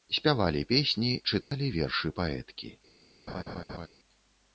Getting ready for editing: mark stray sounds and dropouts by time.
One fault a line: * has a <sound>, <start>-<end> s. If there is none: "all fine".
* has a dropout, 1.4-1.5 s
* has a laugh, 3.3-3.9 s